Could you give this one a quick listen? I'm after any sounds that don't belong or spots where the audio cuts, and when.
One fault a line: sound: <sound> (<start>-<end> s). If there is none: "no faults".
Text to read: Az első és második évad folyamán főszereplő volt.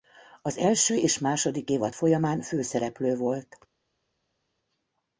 no faults